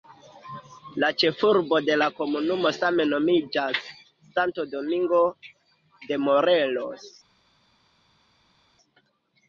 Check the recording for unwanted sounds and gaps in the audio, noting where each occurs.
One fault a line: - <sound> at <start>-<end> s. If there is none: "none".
none